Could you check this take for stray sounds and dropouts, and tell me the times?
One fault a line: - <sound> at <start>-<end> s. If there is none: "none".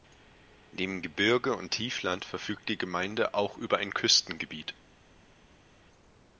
none